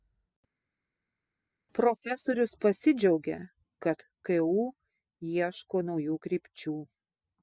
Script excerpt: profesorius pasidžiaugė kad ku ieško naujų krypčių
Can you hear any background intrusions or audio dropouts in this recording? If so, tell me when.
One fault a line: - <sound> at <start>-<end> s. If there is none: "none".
none